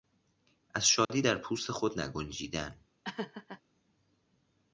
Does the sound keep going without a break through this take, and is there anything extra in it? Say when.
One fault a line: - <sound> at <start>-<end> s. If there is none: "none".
- dropout at 1.0-1.1 s
- laugh at 3.0-3.6 s